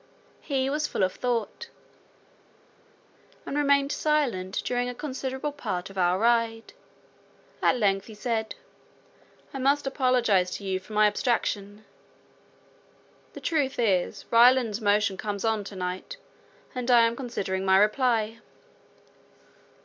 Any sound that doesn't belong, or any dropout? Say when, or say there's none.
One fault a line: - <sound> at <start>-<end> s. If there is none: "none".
none